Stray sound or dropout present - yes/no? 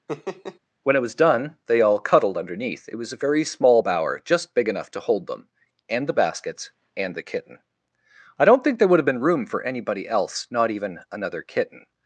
yes